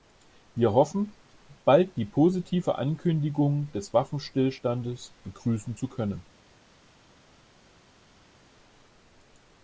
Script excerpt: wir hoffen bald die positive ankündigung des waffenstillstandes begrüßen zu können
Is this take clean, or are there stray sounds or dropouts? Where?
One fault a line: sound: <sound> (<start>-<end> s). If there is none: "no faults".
no faults